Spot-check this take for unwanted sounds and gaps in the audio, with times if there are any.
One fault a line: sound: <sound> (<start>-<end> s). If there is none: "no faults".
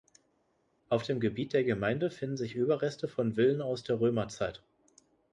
no faults